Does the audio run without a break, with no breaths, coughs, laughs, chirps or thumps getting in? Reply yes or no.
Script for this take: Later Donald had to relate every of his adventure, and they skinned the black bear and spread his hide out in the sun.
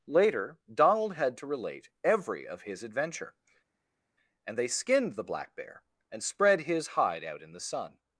yes